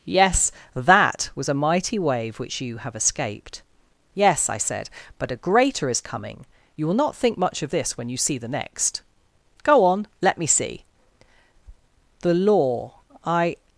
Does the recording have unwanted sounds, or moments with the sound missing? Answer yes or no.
no